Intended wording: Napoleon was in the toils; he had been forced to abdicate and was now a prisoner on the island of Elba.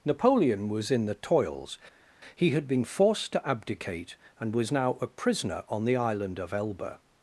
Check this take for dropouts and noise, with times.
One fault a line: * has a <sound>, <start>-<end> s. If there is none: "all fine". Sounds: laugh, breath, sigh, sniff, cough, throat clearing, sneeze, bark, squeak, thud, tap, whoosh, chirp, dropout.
all fine